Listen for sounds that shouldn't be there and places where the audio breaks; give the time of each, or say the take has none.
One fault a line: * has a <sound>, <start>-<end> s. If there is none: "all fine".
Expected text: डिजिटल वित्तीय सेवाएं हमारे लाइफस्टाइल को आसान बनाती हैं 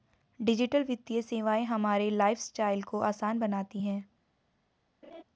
* has a laugh, 5.0-5.2 s